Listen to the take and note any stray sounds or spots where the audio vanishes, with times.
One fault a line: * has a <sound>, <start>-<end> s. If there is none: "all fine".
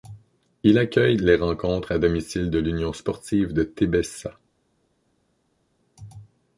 all fine